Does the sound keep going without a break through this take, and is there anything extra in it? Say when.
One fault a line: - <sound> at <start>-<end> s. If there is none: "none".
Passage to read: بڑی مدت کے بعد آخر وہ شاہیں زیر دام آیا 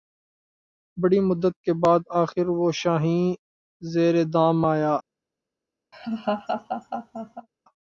- laugh at 5.9-7.5 s